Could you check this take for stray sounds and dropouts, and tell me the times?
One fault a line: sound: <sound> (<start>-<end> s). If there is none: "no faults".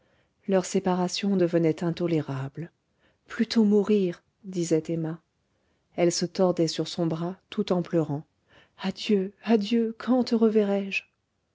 no faults